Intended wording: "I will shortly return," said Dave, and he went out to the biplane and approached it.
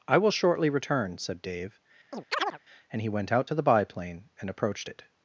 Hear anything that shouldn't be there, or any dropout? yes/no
yes